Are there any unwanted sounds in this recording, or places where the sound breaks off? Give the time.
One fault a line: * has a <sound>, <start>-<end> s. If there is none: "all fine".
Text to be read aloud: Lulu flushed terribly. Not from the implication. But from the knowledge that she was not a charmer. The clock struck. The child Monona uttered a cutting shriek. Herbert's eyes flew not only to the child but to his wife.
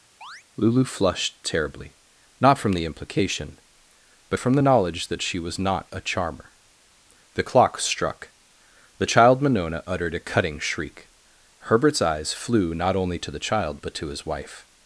* has a chirp, 0.2-0.4 s